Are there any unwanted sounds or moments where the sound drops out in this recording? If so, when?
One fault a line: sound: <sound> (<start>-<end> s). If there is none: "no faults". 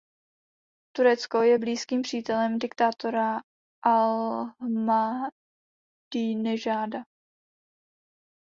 no faults